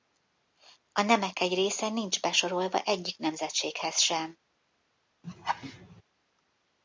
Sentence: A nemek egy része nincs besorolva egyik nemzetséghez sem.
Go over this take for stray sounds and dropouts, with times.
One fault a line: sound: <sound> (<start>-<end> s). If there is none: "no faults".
sound: laugh (5.2-6.0 s)